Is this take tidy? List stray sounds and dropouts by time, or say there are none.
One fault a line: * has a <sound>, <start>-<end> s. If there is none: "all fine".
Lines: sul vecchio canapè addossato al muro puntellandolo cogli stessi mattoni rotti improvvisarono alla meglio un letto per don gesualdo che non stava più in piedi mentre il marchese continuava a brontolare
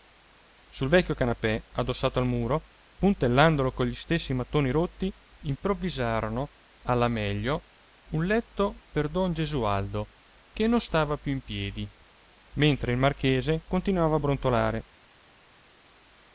all fine